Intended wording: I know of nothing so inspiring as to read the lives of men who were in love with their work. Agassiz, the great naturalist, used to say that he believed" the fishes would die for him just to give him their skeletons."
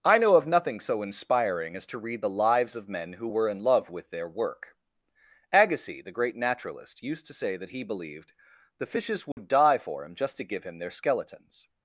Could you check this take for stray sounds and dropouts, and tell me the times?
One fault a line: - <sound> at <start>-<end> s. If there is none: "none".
- dropout at 9.3-9.4 s